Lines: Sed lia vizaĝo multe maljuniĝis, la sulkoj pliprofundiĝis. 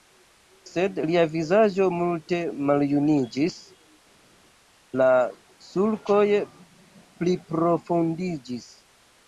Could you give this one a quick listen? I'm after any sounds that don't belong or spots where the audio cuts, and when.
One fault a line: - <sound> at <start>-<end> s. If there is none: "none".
none